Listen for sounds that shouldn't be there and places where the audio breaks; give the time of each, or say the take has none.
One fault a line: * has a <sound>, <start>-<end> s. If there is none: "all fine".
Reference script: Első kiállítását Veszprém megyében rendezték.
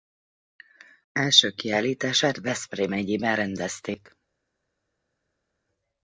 all fine